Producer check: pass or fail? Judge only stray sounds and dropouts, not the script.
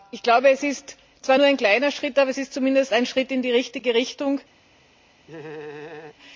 fail